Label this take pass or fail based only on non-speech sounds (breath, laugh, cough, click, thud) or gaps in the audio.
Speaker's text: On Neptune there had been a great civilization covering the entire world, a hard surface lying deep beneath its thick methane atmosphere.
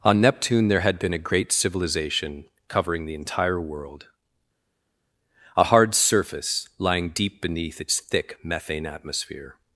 pass